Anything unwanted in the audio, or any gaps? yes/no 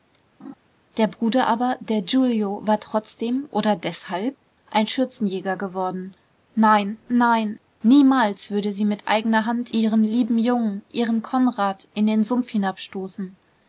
yes